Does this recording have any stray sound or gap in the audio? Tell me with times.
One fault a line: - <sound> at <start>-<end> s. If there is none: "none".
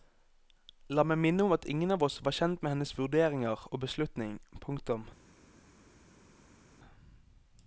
none